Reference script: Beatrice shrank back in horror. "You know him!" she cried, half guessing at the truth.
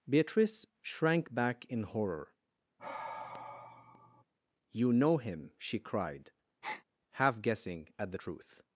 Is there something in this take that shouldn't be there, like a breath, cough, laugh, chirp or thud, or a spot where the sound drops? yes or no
yes